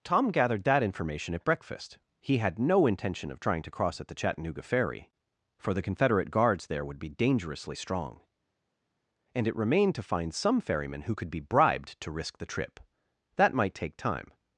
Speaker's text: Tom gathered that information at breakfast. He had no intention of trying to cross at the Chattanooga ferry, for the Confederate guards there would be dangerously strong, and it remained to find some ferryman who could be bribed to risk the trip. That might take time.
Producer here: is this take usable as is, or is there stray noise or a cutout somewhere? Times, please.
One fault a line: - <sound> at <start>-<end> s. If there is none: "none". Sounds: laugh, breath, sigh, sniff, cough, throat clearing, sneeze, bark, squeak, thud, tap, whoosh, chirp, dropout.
none